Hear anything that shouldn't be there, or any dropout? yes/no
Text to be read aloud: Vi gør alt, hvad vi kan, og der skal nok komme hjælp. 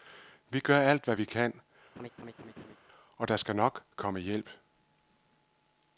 yes